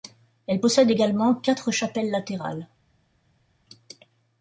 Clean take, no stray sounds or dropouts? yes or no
yes